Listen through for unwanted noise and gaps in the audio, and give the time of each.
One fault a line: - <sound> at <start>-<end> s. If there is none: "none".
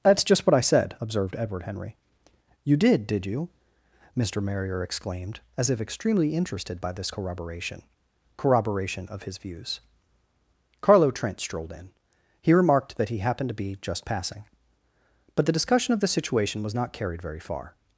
none